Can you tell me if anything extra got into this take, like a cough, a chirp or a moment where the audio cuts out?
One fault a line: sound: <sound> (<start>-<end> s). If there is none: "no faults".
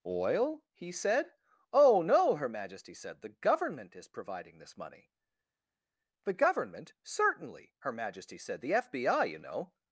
no faults